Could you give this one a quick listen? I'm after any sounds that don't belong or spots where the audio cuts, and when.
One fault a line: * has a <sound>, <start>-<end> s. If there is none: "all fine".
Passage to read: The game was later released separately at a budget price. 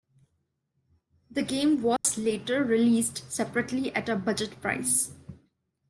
* has a dropout, 2.0-2.0 s